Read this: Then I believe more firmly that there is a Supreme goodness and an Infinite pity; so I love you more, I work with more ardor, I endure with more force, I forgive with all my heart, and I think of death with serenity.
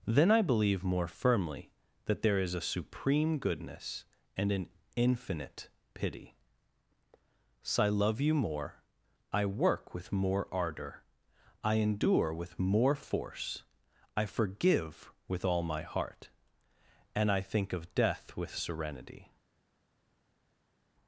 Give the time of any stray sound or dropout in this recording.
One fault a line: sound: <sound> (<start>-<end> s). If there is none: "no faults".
no faults